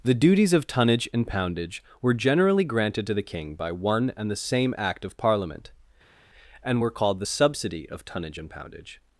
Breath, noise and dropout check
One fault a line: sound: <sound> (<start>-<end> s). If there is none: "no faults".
no faults